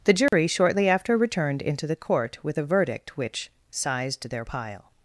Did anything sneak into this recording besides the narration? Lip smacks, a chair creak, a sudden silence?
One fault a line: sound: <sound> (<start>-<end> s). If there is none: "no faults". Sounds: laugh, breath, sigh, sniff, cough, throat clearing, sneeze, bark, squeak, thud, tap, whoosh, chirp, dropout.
sound: dropout (0.3-0.3 s)